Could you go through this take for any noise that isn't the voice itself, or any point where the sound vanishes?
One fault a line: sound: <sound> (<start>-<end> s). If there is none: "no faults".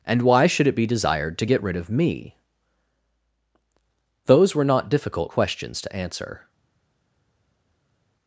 no faults